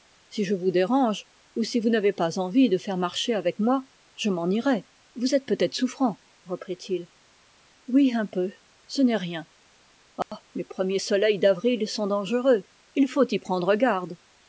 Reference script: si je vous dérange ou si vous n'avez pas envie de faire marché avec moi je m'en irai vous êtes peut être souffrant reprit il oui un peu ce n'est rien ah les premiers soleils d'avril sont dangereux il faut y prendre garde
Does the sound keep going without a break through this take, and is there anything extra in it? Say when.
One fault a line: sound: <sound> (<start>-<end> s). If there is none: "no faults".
sound: dropout (10.2-10.3 s)